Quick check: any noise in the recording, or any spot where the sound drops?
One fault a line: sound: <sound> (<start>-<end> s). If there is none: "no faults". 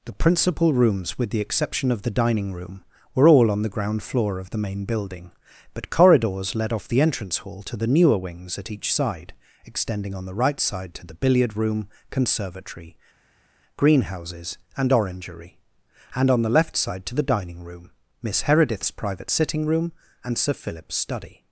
no faults